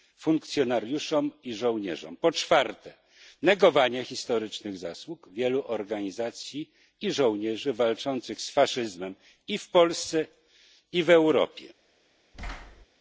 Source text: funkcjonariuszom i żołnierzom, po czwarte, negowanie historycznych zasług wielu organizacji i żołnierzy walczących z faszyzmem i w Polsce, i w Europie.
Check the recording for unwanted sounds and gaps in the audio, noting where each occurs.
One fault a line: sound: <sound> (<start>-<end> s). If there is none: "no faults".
sound: thud (12.3-12.9 s)